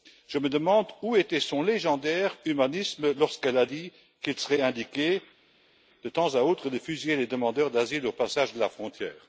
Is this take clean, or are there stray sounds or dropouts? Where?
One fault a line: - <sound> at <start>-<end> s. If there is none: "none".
none